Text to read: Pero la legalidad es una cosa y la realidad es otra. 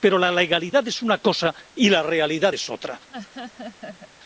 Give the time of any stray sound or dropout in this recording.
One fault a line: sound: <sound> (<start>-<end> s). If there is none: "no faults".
sound: laugh (3.1-4.1 s)